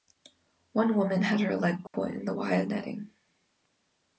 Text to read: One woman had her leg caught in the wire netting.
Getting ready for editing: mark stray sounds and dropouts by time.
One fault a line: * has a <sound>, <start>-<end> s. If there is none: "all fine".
* has a dropout, 1.9-1.9 s